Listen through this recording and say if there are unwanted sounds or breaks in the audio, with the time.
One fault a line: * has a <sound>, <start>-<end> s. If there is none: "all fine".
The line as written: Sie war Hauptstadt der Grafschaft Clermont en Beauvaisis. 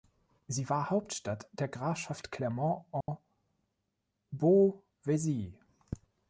* has a dropout, 3.0-3.1 s